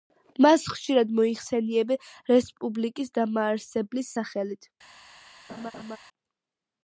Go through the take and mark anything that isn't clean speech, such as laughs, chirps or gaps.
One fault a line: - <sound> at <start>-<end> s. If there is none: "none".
- laugh at 5.5-6.0 s